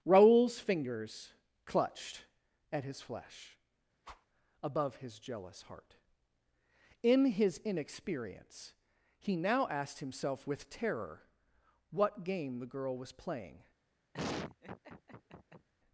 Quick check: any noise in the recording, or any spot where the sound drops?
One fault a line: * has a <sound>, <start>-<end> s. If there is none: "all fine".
* has a whoosh, 4.0-4.3 s
* has a laugh, 14.1-15.7 s